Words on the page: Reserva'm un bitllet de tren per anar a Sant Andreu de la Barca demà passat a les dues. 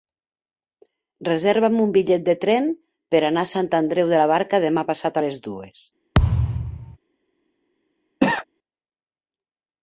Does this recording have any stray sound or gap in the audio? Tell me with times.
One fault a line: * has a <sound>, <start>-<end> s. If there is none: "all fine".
* has a thud, 6.1-7.0 s
* has a cough, 8.2-8.4 s